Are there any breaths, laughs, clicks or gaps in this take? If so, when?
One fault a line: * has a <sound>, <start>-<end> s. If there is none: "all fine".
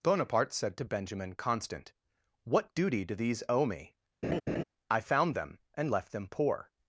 * has a laugh, 4.2-4.6 s